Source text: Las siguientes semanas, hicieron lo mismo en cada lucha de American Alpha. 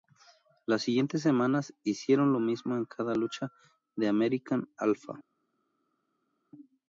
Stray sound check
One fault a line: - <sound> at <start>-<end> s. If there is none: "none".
none